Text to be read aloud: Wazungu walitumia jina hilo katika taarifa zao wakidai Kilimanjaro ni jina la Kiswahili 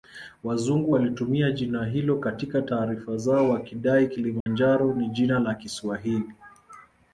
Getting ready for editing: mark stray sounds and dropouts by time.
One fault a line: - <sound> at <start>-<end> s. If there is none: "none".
- dropout at 4.4-4.5 s